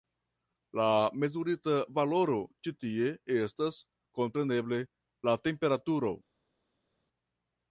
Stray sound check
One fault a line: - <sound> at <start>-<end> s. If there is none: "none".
none